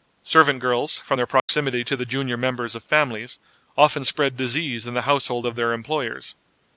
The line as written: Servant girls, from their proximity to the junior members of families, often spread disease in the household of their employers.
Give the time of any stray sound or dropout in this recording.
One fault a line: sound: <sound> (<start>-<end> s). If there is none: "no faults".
sound: dropout (1.4-1.5 s)